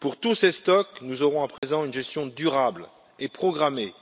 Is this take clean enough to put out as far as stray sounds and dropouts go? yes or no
no